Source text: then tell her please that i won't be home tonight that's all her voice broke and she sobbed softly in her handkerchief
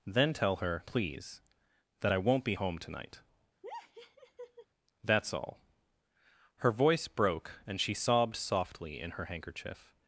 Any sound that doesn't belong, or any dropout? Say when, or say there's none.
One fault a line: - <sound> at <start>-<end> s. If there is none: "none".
- laugh at 3.6-4.7 s